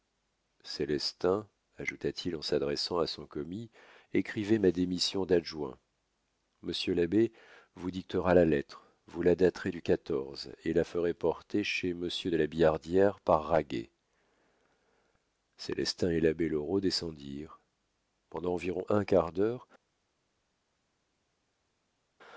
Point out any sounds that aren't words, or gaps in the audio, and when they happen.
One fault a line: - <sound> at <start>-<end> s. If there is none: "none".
none